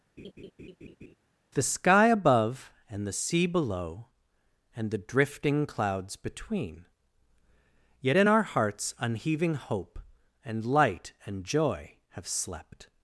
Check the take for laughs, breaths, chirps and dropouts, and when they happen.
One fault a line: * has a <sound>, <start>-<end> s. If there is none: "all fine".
* has a laugh, 0.2-1.1 s